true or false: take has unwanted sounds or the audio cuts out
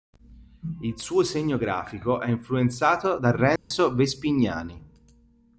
true